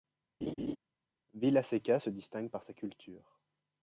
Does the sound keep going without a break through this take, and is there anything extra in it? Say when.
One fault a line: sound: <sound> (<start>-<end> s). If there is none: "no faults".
sound: laugh (0.4-0.8 s)